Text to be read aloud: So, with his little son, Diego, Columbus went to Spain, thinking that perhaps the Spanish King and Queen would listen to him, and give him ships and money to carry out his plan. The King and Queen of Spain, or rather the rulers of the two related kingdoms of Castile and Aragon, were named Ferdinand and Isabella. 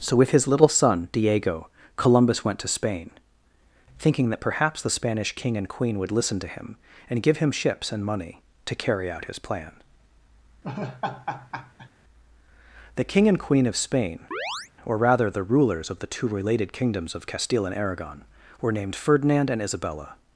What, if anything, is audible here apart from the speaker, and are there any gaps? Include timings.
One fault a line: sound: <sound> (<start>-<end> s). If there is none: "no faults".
sound: laugh (10.6-11.9 s)
sound: chirp (14.3-14.7 s)